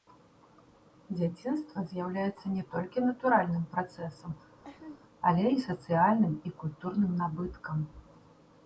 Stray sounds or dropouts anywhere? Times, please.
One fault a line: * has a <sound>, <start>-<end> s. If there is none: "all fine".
* has a laugh, 4.6-5.0 s